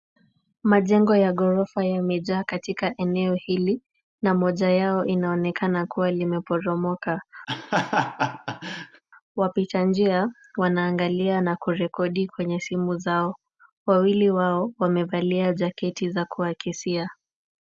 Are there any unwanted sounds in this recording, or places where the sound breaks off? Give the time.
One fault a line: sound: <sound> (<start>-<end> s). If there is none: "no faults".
sound: laugh (7.5-9.0 s)